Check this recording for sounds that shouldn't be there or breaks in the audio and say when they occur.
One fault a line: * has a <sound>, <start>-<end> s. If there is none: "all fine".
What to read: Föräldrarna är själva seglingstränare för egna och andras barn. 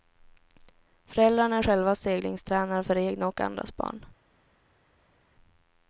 all fine